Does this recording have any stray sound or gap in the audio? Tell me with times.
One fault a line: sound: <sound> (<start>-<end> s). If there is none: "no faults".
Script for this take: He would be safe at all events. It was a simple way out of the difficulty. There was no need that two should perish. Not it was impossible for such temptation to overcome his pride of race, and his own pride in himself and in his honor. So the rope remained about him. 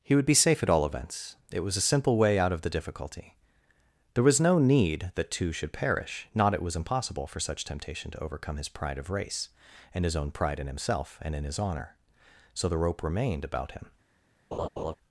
sound: laugh (14.5-15.0 s)